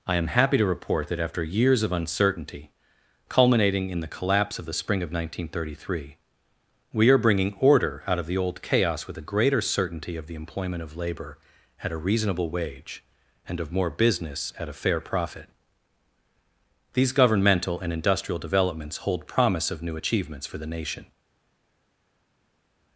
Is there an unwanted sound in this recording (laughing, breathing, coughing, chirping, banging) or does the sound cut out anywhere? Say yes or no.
no